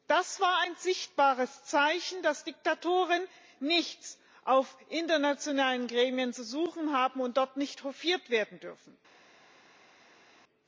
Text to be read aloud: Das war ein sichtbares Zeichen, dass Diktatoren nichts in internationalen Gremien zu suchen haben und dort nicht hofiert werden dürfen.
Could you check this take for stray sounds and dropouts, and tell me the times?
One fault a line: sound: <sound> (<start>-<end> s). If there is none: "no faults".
no faults